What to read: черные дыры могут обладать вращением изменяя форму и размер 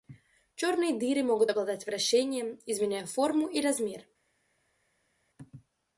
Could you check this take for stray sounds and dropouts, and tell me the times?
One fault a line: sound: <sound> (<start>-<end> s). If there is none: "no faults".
no faults